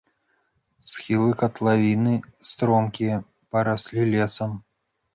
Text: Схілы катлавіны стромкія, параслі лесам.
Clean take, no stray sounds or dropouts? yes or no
yes